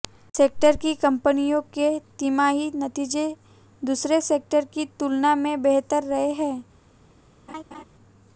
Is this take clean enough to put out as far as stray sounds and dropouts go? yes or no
no